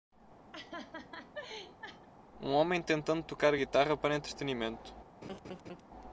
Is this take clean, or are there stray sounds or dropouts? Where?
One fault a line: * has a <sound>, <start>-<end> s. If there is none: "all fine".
* has a laugh, 0.5-2.1 s
* has a laugh, 5.2-5.8 s